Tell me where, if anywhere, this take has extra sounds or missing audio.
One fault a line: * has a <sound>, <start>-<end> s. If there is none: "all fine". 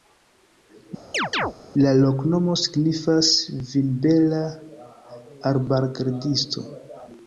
* has a chirp, 1.1-1.5 s